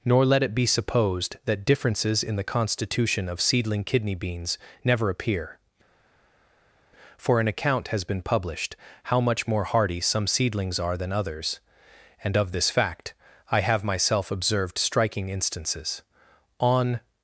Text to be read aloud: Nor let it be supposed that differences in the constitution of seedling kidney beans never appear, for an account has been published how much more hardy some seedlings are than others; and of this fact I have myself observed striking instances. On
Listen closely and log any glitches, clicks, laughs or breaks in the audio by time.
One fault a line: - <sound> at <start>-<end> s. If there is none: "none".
none